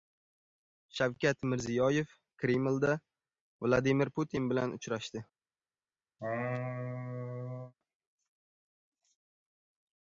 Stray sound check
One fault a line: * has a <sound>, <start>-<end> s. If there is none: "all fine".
* has a laugh, 6.2-7.7 s